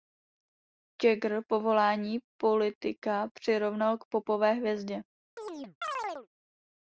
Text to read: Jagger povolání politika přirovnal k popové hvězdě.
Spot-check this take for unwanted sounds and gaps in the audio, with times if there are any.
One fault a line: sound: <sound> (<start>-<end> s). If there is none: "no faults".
sound: chirp (5.4-6.3 s)